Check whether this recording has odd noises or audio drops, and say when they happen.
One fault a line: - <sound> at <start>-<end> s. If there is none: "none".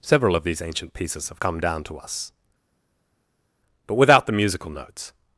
none